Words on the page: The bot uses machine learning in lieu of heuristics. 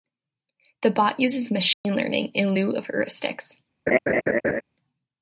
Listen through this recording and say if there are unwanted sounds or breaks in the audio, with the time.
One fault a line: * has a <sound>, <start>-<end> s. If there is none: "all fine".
* has a dropout, 1.7-1.8 s
* has a laugh, 3.9-4.6 s